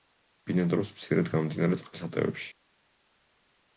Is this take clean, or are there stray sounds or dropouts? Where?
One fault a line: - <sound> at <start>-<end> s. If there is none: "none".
none